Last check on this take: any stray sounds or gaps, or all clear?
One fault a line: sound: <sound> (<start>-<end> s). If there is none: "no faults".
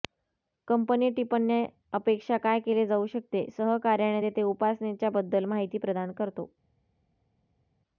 no faults